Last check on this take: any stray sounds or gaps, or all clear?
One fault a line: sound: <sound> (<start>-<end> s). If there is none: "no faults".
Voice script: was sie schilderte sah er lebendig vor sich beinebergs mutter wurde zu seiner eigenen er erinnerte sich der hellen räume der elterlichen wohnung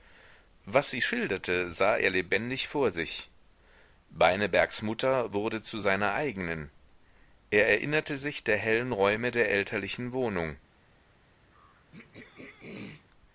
sound: throat clearing (11.5-13.1 s)